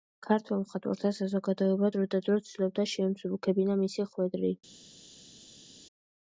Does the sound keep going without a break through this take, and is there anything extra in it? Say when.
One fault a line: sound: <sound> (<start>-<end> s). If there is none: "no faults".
no faults